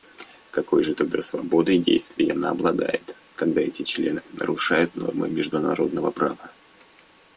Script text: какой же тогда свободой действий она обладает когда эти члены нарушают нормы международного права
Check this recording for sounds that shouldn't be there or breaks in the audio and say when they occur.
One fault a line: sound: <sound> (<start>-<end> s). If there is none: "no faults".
no faults